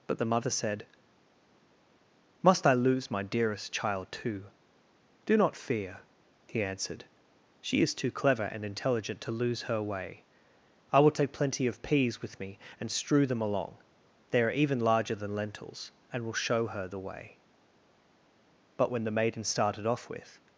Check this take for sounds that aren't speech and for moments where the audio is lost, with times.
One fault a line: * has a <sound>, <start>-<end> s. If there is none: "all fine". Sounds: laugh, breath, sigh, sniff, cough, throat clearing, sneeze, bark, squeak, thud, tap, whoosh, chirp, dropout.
all fine